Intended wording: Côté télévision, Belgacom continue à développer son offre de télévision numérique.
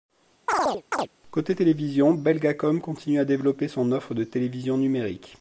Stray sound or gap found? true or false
true